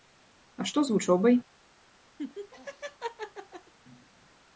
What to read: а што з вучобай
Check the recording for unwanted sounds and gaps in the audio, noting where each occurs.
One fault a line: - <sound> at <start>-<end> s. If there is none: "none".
- laugh at 2.2-3.7 s